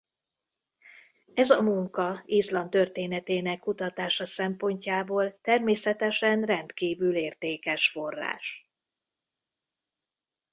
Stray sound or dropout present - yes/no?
no